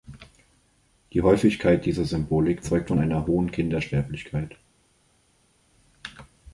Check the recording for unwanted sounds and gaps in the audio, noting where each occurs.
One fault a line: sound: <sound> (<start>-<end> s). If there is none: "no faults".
no faults